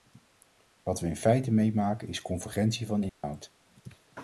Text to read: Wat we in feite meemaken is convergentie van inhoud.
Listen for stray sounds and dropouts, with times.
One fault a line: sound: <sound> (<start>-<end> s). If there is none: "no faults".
sound: dropout (3.1-3.2 s)